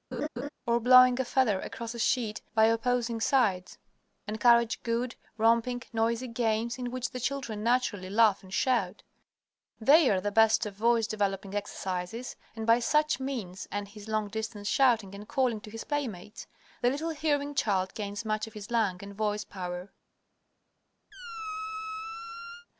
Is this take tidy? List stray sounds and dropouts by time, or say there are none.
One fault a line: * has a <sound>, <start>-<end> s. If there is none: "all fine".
* has a laugh, 0.1-0.5 s
* has a squeak, 21.1-22.7 s